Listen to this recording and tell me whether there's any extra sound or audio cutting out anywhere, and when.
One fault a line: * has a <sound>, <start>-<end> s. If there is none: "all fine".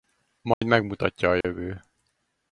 * has a dropout, 0.5-0.6 s
* has a dropout, 1.4-1.4 s